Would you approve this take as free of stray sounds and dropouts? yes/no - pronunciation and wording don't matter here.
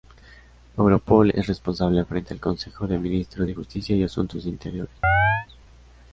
no